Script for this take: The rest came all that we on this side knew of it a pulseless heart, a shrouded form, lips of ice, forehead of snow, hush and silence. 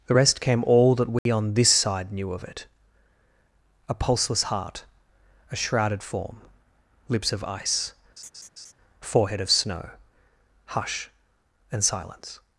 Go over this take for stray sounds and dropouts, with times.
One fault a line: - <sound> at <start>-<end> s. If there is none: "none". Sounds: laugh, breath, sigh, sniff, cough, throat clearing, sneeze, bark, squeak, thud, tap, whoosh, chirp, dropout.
- dropout at 1.2-1.3 s
- laugh at 8.2-8.7 s